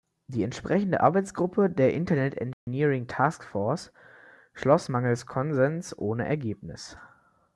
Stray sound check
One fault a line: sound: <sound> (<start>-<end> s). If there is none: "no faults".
sound: dropout (2.5-2.7 s)